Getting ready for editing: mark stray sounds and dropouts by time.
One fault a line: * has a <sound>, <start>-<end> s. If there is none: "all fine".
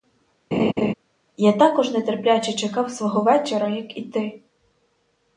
* has a laugh, 0.5-0.9 s